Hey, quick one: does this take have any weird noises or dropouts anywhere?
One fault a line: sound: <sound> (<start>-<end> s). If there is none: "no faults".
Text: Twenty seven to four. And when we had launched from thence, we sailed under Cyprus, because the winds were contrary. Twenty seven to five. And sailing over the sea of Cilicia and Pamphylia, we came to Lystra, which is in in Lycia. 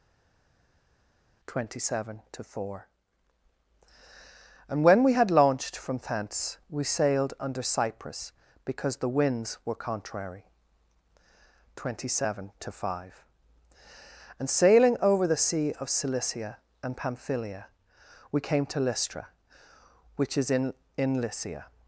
no faults